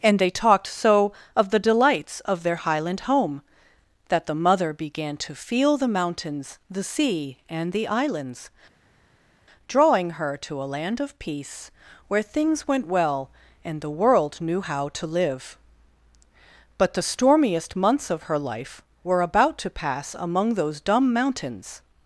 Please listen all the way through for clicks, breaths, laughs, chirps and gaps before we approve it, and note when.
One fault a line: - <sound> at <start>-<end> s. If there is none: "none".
none